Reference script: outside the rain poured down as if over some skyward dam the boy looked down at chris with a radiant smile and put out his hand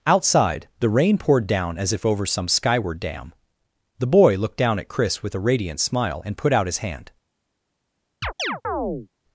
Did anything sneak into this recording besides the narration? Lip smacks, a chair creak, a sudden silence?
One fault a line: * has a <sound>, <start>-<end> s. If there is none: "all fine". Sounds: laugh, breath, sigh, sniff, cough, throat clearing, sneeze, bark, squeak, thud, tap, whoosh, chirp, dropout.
* has a chirp, 8.2-9.1 s